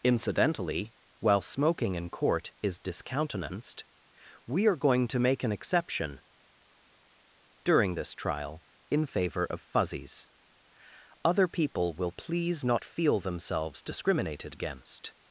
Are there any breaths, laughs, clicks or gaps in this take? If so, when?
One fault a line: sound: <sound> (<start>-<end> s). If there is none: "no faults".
no faults